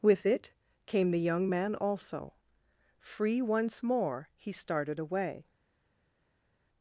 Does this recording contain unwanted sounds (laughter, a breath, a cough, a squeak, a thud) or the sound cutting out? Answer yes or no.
no